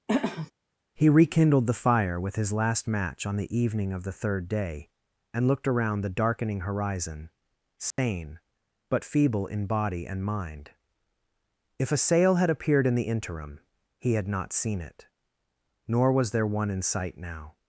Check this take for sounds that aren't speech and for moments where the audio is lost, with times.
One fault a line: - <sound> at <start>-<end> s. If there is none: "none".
- throat clearing at 0.1-0.5 s
- dropout at 7.9-8.0 s